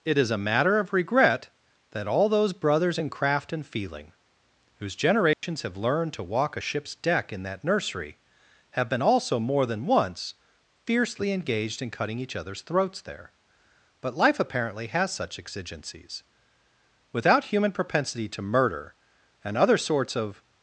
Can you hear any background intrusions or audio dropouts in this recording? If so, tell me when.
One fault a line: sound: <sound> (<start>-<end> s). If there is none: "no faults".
sound: dropout (5.3-5.4 s)